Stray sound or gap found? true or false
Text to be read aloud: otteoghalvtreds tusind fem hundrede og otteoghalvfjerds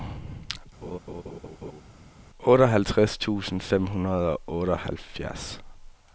true